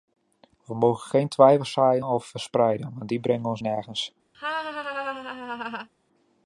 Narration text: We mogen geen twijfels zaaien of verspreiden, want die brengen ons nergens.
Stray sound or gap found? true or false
true